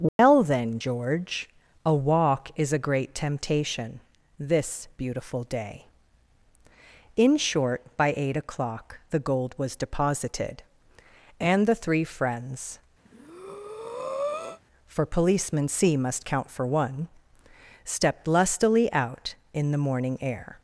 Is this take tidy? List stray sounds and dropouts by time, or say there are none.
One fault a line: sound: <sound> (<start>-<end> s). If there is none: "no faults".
sound: dropout (0.1-0.2 s)
sound: breath (13.0-14.6 s)